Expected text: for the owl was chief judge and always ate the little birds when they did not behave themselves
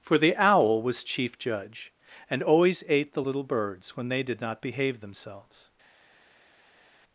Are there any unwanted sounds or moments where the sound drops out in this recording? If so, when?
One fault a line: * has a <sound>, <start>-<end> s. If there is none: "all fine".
all fine